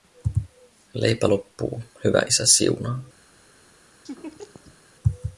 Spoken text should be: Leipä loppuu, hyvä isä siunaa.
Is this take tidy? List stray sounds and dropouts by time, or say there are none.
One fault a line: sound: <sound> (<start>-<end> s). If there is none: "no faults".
sound: laugh (4.1-4.8 s)